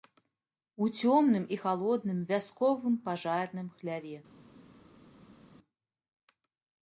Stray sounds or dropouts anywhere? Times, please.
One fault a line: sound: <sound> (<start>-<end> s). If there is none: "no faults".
no faults